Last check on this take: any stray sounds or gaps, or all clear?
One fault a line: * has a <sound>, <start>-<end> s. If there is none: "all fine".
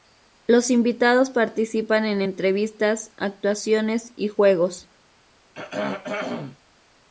* has a throat clearing, 5.5-6.6 s